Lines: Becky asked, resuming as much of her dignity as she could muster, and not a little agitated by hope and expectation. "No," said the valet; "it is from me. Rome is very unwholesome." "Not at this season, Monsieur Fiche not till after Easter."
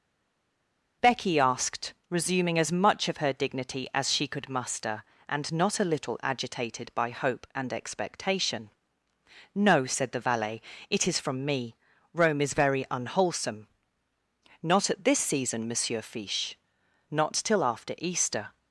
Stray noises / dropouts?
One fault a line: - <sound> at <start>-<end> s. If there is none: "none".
none